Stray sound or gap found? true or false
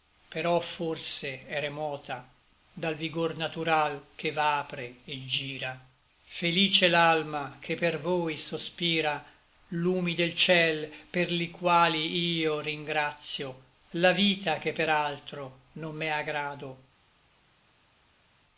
false